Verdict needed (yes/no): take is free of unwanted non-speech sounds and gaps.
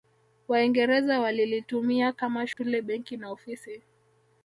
no